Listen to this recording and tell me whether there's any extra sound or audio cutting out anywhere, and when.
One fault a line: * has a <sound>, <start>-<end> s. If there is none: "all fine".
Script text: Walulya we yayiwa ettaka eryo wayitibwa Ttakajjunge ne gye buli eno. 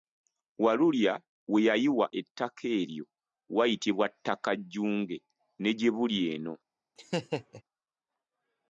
* has a laugh, 7.0-7.6 s